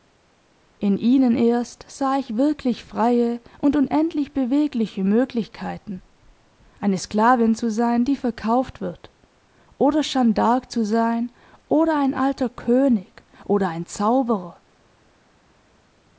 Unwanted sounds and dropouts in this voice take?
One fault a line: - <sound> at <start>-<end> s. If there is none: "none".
none